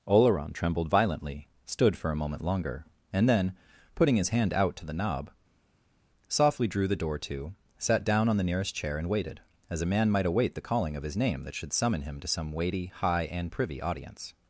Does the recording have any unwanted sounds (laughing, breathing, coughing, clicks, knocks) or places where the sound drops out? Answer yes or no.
no